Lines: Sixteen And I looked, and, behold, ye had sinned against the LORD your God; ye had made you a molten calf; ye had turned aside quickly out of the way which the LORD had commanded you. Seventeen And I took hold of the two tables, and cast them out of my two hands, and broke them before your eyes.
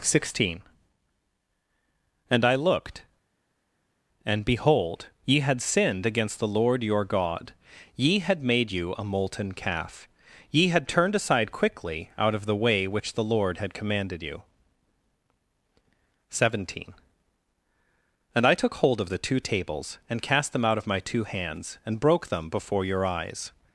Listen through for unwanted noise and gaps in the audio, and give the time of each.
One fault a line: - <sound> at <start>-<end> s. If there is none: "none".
none